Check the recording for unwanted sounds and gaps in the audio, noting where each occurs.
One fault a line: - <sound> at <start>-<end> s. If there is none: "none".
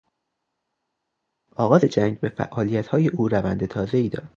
none